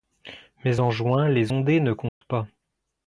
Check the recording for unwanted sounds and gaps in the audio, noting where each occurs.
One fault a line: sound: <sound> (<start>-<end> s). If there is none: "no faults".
sound: dropout (2.1-2.2 s)